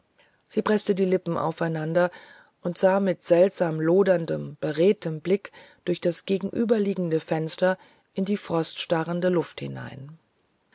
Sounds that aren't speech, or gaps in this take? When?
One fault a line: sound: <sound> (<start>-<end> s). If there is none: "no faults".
no faults